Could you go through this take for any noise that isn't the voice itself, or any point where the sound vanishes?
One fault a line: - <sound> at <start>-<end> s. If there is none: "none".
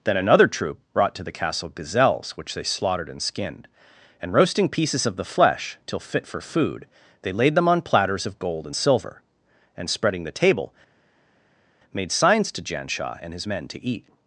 none